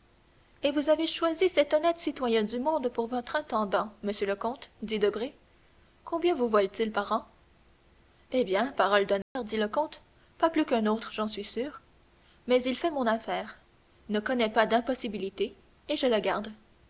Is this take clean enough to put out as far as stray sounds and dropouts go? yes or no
no